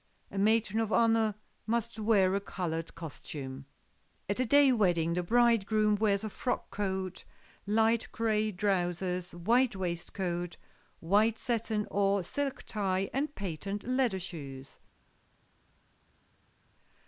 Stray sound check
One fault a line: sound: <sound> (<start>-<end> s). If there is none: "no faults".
no faults